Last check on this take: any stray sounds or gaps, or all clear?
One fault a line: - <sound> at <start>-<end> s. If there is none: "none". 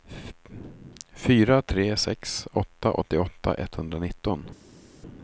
none